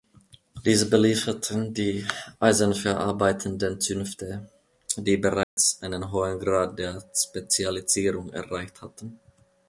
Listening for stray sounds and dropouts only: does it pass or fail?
fail